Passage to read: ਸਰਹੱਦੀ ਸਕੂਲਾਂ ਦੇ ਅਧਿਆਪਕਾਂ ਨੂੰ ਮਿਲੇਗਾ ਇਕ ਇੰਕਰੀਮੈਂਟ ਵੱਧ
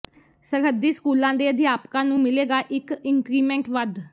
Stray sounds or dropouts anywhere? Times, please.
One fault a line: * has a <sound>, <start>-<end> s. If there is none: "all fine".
all fine